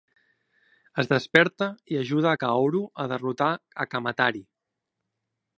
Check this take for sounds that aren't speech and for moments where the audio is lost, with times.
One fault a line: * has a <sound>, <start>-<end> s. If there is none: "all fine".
all fine